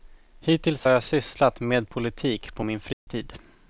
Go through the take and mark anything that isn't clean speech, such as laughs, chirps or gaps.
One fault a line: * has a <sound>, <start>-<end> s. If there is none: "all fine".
* has a dropout, 2.9-3.1 s